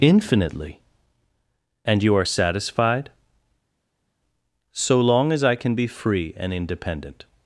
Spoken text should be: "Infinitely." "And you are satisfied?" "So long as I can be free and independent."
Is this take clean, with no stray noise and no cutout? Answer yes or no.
yes